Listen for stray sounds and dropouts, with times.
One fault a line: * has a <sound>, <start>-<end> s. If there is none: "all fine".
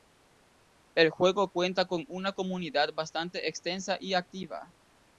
all fine